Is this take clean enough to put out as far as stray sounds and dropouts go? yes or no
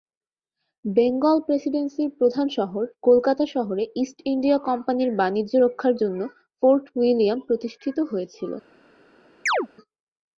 no